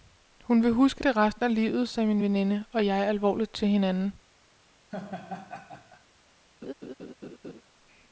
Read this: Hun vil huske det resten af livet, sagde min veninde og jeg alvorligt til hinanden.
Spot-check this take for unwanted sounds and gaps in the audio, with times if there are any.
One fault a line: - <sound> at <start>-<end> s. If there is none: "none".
- laugh at 4.9-6.0 s
- laugh at 6.6-7.6 s